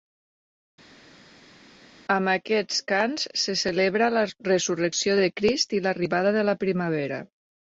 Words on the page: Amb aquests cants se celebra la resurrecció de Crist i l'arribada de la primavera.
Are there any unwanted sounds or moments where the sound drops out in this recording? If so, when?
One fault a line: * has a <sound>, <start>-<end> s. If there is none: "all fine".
all fine